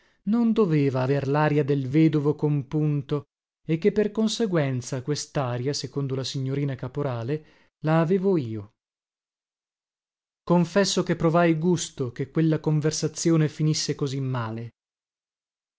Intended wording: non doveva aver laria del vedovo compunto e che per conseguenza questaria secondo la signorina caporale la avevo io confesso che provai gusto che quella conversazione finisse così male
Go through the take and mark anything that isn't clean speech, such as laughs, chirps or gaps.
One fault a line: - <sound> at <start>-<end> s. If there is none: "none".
none